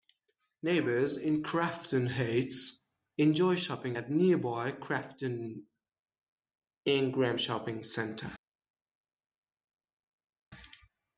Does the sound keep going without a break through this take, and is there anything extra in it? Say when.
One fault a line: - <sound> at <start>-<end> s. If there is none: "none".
none